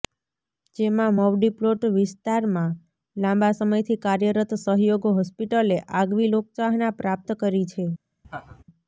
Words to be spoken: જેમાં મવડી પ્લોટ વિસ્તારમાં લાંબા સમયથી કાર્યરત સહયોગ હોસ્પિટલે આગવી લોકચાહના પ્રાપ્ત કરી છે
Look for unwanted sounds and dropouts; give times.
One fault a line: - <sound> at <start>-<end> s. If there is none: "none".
- laugh at 8.2-8.6 s